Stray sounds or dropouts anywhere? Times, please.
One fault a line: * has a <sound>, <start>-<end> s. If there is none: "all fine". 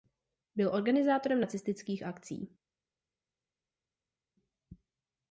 all fine